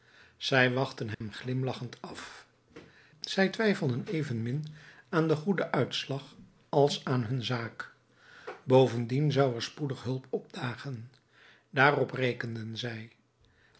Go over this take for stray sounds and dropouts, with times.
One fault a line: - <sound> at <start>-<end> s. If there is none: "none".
- dropout at 1.1-1.2 s